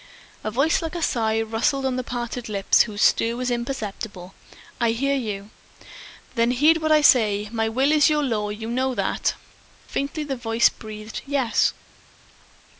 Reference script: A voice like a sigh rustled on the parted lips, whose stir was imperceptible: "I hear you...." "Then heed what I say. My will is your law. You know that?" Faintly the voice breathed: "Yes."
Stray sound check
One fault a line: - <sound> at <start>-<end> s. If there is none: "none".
none